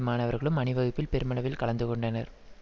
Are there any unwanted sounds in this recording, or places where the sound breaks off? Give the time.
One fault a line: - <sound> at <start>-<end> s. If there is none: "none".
none